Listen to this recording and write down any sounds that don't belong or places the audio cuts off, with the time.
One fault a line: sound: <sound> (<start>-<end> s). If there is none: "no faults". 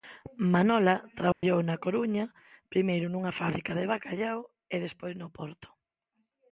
sound: dropout (1.3-1.4 s)